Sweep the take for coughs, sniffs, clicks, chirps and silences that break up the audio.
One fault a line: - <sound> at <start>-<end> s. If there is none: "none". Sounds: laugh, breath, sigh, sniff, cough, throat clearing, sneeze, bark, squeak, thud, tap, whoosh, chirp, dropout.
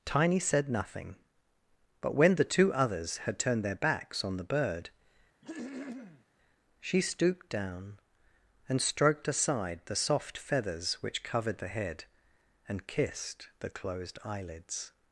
- throat clearing at 5.4-6.3 s